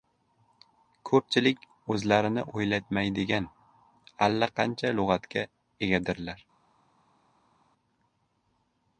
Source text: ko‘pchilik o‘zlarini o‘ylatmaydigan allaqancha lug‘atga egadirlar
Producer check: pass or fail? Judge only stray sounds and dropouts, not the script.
pass